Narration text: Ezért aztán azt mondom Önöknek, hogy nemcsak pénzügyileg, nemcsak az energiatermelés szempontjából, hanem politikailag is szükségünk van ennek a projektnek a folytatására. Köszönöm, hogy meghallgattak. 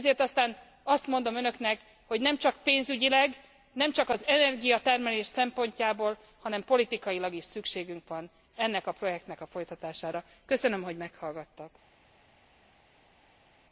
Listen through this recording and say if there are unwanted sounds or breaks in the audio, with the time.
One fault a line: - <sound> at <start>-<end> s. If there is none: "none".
none